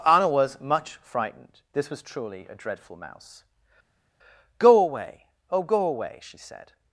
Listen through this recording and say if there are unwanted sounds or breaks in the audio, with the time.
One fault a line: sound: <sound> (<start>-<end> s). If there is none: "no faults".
no faults